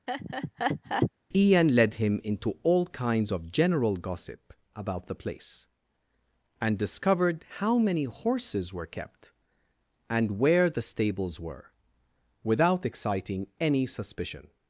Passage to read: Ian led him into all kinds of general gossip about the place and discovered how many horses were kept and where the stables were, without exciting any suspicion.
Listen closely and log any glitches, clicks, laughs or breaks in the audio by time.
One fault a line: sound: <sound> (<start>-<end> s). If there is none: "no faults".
sound: laugh (0.1-1.1 s)